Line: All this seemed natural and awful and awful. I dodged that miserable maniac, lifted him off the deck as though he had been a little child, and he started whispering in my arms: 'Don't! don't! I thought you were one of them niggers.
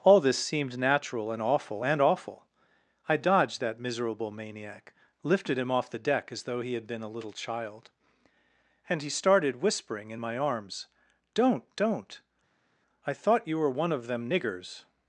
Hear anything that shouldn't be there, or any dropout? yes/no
no